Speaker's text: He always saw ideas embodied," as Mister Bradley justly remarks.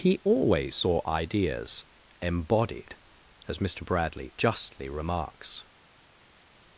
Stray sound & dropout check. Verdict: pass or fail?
pass